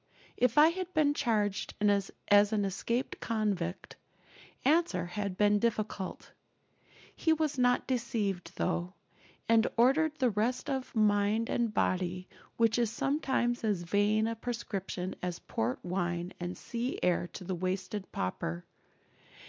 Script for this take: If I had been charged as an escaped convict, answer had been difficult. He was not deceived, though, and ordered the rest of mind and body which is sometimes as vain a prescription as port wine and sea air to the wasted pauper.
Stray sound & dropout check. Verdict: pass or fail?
pass